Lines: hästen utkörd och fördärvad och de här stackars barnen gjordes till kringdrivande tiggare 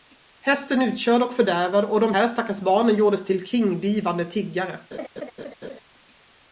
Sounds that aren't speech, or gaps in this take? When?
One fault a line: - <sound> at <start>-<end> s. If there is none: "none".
- laugh at 4.9-5.8 s